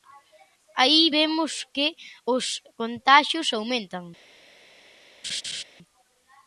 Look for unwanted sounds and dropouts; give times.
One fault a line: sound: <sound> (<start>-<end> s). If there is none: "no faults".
sound: laugh (5.2-5.6 s)